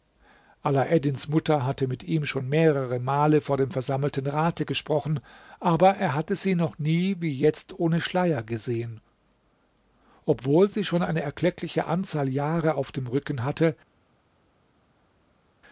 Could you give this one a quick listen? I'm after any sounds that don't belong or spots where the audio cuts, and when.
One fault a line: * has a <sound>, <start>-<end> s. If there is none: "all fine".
all fine